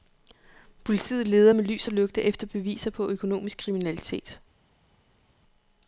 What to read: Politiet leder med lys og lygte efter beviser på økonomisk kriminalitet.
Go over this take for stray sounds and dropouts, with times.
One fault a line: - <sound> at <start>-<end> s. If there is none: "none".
none